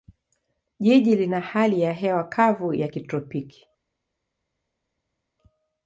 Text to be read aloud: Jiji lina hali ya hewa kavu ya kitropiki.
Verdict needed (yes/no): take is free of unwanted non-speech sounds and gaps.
yes